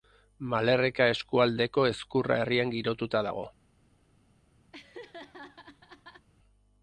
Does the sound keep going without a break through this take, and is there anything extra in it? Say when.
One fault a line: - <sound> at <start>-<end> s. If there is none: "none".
- laugh at 4.7-6.3 s